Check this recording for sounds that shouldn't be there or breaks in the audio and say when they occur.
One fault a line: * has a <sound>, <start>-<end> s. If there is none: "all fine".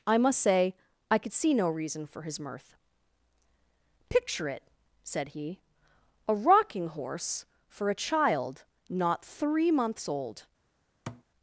* has a thud, 11.1-11.2 s